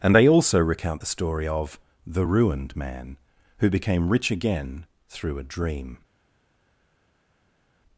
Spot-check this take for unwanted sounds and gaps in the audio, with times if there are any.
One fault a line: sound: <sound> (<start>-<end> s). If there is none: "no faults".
no faults